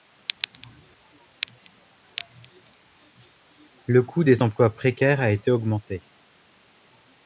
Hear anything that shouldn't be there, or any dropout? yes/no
no